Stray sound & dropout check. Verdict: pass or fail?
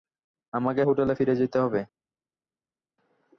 pass